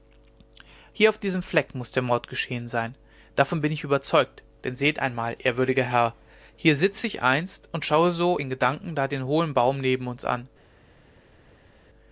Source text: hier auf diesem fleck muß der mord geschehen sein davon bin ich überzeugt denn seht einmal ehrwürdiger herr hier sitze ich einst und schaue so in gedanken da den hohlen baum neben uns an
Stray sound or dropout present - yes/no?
no